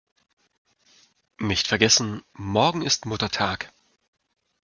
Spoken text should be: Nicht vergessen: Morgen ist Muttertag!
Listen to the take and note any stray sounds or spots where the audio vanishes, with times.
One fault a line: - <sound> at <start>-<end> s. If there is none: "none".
none